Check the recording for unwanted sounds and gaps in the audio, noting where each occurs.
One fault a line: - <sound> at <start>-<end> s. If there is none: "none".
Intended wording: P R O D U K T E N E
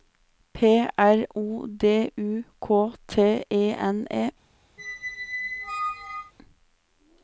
- squeak at 4.8-6.3 s